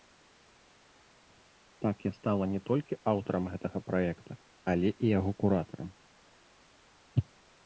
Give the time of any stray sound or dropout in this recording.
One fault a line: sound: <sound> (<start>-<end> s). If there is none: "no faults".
no faults